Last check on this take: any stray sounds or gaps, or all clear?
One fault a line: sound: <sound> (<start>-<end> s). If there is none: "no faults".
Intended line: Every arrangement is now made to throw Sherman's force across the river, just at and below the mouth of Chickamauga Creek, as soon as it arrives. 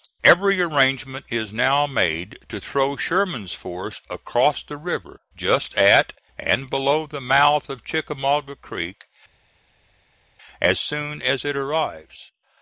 no faults